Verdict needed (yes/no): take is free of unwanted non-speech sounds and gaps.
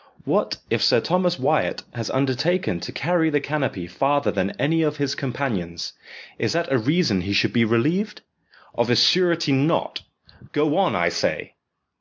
yes